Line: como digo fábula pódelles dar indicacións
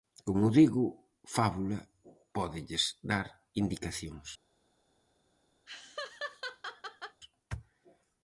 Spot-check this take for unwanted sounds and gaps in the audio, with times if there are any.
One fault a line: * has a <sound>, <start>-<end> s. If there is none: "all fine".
* has a laugh, 5.7-7.2 s